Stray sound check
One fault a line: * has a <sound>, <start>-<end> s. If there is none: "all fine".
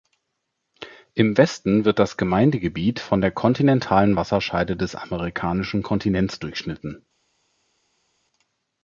all fine